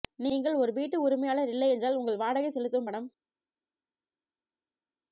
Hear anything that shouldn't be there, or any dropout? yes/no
no